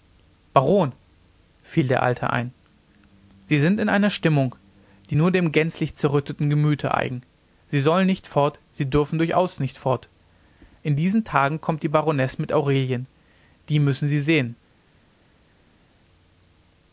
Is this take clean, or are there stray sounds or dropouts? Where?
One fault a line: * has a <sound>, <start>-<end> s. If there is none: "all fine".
all fine